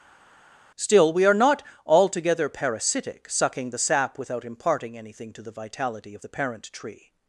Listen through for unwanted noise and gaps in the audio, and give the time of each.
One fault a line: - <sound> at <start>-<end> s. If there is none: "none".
none